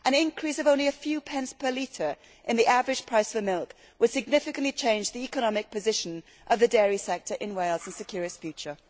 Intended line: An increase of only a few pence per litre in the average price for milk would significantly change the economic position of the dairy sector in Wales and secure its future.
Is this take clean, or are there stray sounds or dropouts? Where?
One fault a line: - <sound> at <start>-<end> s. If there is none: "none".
none